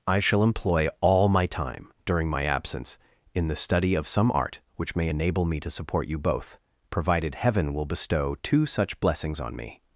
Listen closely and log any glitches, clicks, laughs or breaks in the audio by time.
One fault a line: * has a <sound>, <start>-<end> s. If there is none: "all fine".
all fine